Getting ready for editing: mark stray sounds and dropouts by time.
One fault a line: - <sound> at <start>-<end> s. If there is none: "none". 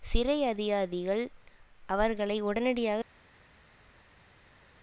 none